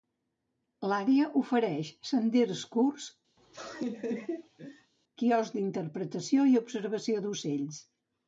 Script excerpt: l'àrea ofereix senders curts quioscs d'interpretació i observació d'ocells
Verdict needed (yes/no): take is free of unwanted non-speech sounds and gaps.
no